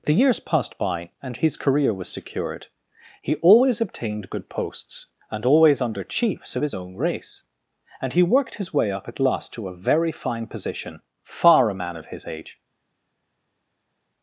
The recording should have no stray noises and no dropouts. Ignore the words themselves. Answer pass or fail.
pass